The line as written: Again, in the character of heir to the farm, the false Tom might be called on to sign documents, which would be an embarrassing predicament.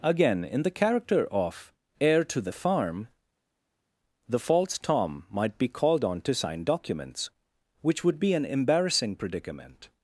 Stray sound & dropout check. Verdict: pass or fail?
pass